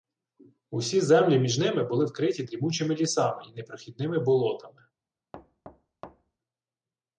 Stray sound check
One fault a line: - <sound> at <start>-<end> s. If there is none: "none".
- thud at 5.3-6.4 s